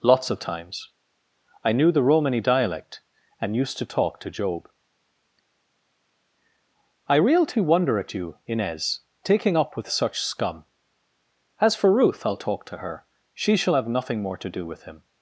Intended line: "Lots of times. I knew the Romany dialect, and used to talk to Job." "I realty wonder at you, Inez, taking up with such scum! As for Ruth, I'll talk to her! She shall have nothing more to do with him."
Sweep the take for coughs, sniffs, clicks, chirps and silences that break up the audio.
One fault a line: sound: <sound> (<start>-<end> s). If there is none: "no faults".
no faults